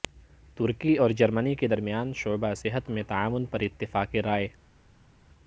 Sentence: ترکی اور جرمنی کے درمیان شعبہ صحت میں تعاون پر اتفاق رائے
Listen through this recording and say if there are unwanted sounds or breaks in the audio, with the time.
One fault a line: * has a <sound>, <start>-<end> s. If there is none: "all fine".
all fine